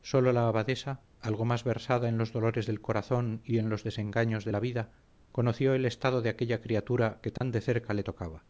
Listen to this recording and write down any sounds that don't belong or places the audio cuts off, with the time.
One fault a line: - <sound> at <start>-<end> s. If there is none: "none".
- dropout at 7.4-7.4 s